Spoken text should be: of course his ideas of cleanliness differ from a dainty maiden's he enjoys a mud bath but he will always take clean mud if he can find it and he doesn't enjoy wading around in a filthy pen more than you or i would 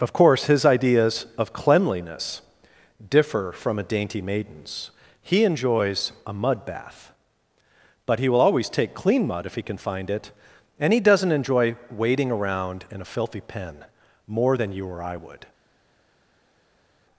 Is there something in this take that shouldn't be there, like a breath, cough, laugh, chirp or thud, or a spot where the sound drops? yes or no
no